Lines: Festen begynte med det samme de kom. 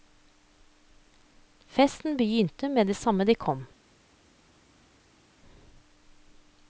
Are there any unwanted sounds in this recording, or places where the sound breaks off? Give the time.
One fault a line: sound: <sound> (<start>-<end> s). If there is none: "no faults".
no faults